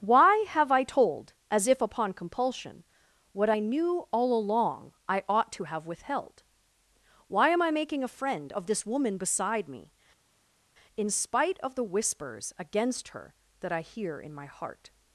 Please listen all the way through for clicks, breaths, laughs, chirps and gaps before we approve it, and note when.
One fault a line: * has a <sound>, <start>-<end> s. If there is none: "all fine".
all fine